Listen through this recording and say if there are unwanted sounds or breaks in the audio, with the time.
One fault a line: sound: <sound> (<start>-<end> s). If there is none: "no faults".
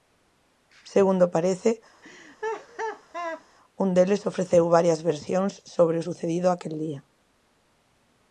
sound: laugh (2.0-3.4 s)